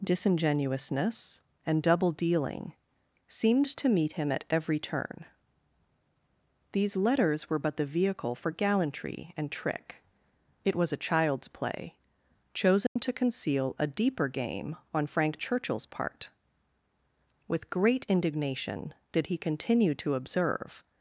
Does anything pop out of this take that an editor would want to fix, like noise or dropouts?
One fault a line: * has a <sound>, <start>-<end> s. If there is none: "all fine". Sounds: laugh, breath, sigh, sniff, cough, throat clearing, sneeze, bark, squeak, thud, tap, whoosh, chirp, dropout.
* has a dropout, 12.9-13.0 s